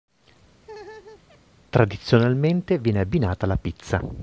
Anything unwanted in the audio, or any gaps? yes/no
yes